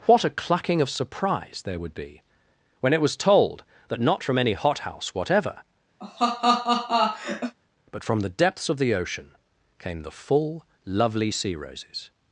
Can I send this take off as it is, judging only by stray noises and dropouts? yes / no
no